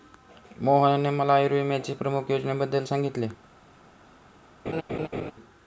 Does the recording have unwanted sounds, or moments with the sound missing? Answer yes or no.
yes